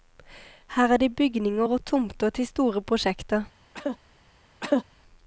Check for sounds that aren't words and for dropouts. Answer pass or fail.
fail